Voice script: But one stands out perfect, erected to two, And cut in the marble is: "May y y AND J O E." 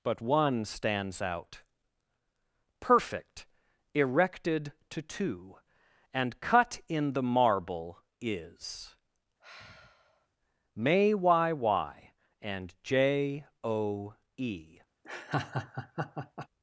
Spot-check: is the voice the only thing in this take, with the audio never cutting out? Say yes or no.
no